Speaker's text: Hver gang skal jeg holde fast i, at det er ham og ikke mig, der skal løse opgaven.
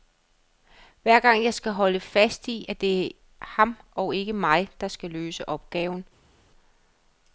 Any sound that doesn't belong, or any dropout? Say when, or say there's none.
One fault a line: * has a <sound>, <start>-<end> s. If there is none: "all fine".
all fine